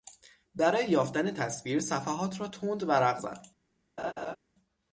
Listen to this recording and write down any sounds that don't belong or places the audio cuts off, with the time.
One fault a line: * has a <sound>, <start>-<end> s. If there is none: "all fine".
* has a laugh, 4.0-4.4 s